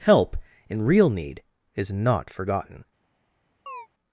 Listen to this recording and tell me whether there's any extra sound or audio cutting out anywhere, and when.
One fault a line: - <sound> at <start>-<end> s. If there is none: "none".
- chirp at 3.7-3.9 s